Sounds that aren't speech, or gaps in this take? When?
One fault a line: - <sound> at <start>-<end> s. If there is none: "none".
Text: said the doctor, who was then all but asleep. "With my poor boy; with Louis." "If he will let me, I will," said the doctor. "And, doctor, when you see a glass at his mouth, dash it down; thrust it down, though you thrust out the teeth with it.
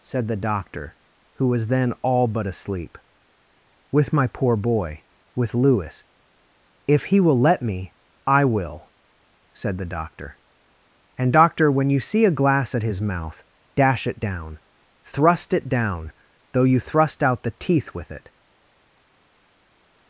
none